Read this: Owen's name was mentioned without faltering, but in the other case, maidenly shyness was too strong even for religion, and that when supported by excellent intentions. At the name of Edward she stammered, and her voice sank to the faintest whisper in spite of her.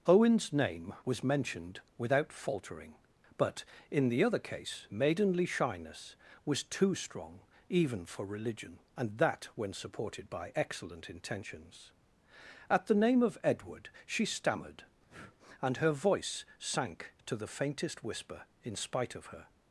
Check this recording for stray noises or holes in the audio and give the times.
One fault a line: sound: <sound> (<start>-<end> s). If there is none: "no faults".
sound: breath (15.1-15.4 s)